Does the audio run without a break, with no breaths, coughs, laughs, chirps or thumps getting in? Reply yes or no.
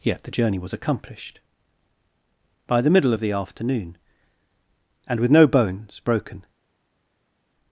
yes